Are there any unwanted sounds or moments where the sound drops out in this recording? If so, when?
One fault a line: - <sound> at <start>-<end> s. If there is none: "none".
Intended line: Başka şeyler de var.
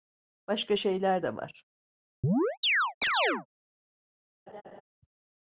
- chirp at 2.2-3.5 s
- laugh at 4.5-4.8 s